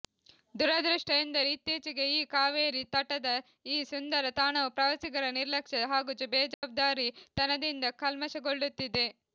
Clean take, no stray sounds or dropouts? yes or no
no